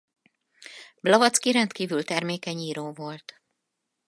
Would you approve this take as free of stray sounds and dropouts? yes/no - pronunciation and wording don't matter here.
yes